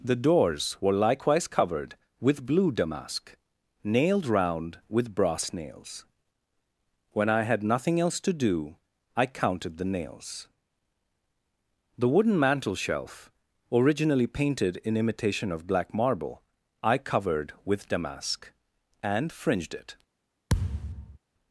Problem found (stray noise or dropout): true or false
true